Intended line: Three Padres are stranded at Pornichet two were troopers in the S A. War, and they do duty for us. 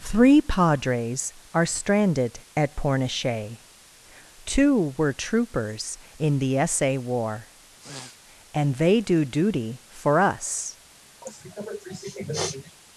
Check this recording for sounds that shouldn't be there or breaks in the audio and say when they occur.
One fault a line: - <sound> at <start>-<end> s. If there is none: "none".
- sniff at 7.8-8.2 s
- sniff at 11.2-12.8 s